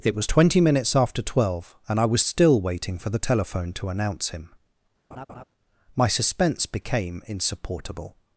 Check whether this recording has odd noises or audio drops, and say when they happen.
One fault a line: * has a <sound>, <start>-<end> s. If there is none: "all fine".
* has a laugh, 5.1-5.4 s